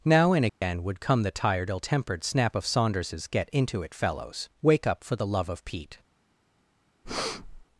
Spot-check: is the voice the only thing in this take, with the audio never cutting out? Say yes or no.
no